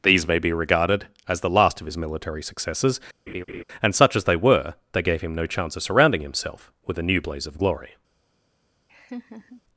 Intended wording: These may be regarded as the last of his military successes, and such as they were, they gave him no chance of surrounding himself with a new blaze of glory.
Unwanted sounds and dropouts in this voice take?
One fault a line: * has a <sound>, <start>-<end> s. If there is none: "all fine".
* has a laugh, 3.3-3.6 s
* has a laugh, 8.9-9.6 s